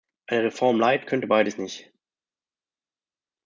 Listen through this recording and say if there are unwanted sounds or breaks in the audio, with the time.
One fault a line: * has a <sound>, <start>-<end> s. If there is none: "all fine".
all fine